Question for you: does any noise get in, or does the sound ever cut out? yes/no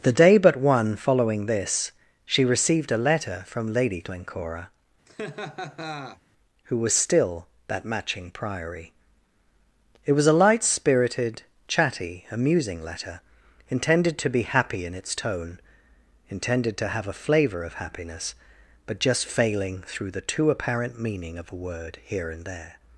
yes